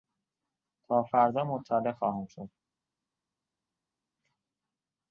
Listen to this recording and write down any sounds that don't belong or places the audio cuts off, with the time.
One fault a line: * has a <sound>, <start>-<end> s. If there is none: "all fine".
all fine